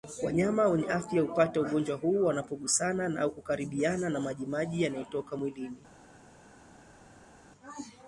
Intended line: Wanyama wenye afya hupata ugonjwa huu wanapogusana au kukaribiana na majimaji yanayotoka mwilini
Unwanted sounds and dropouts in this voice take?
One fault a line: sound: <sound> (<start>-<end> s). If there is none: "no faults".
no faults